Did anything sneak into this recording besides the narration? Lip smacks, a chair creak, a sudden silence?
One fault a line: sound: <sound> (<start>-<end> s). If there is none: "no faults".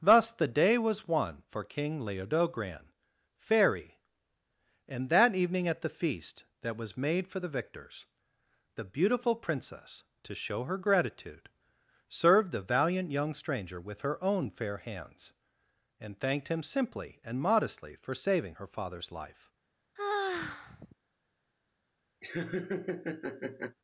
sound: sigh (20.0-21.0 s)
sound: laugh (22.2-23.8 s)